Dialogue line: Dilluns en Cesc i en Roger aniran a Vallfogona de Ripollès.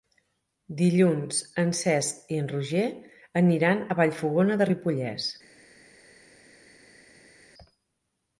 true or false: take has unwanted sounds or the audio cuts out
false